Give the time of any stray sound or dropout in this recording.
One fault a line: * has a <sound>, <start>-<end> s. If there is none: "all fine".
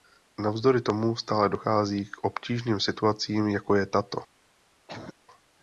* has a cough, 4.9-5.1 s